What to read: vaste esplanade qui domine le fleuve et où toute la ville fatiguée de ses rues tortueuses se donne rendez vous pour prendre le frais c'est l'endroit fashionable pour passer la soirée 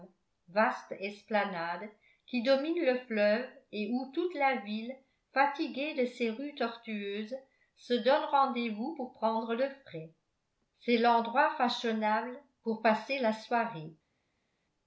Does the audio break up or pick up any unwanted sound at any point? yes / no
no